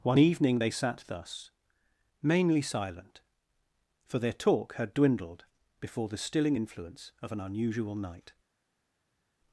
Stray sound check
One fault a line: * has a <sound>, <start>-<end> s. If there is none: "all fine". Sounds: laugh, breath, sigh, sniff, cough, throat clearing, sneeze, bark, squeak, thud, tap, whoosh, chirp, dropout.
all fine